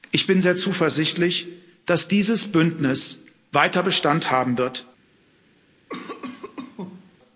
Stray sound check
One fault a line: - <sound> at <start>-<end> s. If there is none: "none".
- cough at 5.9-7.2 s